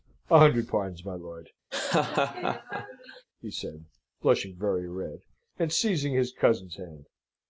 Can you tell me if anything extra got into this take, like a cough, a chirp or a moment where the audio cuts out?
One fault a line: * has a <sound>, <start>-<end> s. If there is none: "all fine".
* has a laugh, 1.7-3.3 s